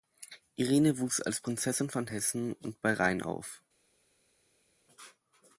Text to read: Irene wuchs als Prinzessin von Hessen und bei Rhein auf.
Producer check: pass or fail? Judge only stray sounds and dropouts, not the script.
pass